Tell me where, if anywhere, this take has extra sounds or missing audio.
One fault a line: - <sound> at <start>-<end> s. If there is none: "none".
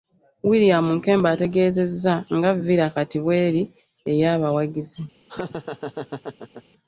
- laugh at 5.3-6.6 s